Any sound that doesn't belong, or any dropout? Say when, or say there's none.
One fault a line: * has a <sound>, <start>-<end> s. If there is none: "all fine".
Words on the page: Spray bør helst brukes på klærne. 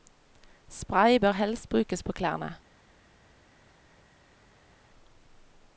all fine